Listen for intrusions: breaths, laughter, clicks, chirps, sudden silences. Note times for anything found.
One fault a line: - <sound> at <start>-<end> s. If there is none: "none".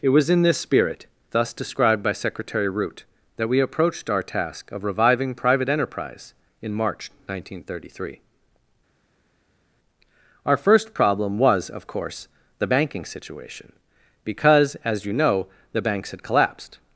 none